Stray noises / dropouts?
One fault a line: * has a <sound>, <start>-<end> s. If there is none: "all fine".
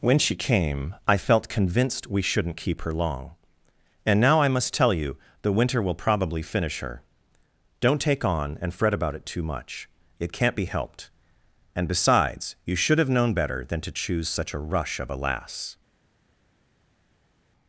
all fine